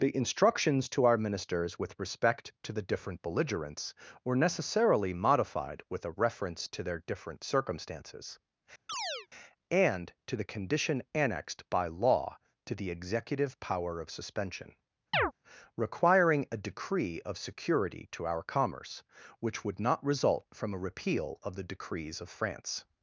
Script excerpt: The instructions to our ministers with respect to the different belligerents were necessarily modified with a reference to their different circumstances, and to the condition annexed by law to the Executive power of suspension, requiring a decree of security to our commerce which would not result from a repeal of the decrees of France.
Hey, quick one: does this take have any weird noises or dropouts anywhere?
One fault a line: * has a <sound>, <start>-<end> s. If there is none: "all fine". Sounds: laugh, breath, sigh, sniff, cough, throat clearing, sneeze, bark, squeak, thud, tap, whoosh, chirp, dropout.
* has a chirp, 8.9-9.3 s
* has a chirp, 15.1-15.3 s